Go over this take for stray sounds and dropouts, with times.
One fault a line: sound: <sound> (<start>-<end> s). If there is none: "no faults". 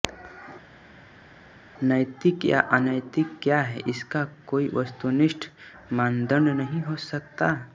no faults